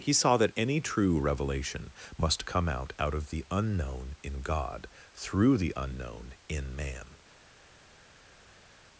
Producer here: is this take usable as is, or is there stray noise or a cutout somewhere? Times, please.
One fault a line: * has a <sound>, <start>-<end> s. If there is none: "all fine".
all fine